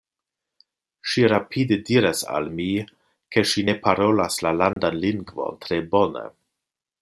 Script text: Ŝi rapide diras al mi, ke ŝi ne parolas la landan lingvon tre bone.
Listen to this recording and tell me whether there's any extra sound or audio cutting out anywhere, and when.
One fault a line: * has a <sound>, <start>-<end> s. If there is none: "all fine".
* has a dropout, 4.7-4.8 s